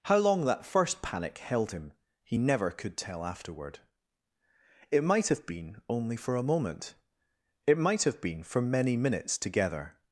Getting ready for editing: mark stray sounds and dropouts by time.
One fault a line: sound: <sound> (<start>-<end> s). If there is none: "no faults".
no faults